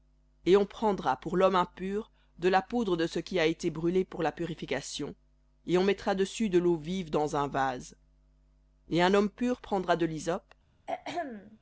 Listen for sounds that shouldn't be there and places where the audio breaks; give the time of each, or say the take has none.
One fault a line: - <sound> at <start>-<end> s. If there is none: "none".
- throat clearing at 10.9-11.6 s